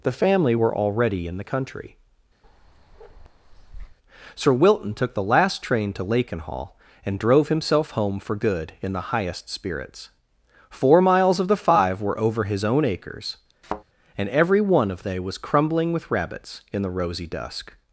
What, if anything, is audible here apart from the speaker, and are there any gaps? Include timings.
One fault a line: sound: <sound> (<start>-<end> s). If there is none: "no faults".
sound: bark (2.4-4.0 s)
sound: thud (13.6-13.8 s)